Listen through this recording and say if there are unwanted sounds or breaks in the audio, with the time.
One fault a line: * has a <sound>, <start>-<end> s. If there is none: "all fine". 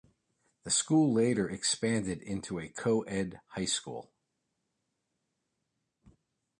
all fine